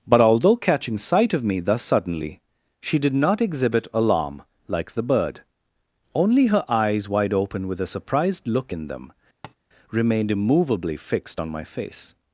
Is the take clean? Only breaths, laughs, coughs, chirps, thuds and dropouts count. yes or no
no